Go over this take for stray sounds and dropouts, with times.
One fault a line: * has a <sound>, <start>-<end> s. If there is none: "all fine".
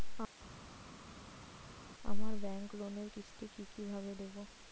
all fine